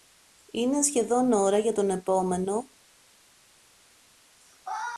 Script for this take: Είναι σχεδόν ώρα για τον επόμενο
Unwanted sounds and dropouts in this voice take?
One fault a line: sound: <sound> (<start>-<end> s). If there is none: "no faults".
no faults